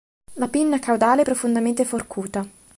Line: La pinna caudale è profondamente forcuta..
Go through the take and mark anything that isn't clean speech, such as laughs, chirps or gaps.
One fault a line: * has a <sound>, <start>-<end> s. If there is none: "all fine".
all fine